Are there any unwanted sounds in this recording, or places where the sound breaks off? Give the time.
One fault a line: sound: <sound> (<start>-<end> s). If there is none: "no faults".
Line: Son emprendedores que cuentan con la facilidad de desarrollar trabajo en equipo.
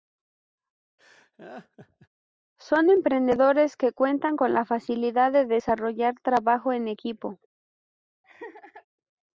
sound: laugh (1.0-2.1 s)
sound: laugh (8.2-8.9 s)